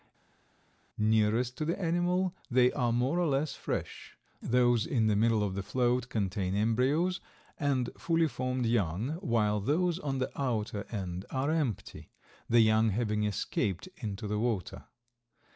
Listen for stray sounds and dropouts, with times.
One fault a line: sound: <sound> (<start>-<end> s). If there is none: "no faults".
no faults